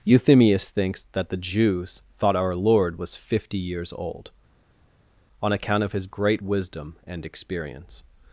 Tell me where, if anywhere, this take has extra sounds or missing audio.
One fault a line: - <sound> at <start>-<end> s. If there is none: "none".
none